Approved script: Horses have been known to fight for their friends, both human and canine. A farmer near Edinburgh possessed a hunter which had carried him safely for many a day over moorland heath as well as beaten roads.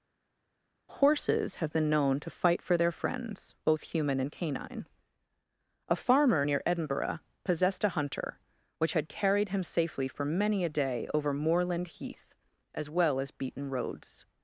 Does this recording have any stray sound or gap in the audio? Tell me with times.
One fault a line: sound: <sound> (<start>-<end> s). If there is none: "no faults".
no faults